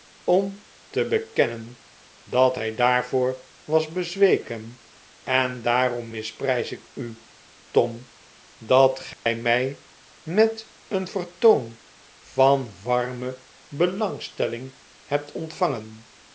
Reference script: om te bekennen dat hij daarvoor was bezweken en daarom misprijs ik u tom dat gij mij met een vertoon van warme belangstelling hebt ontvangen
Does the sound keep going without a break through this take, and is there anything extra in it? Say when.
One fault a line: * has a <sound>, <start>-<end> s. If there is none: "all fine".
* has a dropout, 9.1-9.3 s